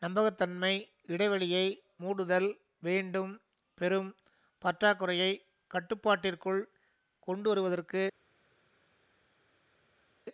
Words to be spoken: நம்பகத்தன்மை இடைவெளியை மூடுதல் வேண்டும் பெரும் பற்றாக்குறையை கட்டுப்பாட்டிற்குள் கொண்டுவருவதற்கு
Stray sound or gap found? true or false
false